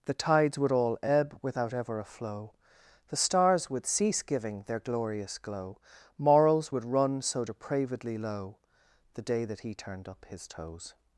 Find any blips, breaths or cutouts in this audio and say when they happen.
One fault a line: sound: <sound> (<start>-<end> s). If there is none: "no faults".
no faults